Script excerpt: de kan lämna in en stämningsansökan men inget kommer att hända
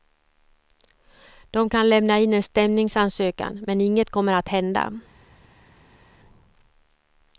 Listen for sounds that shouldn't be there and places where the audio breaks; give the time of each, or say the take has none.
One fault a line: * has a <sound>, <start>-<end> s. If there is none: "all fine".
all fine